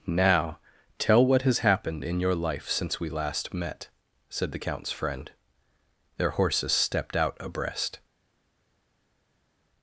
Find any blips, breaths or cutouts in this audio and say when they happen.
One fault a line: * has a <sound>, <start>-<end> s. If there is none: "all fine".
all fine